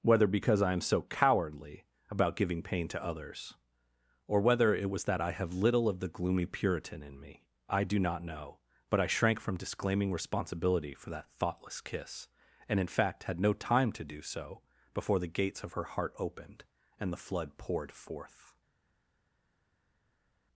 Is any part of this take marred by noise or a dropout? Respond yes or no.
no